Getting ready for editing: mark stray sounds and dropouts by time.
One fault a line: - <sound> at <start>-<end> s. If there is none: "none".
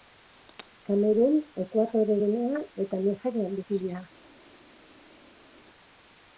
none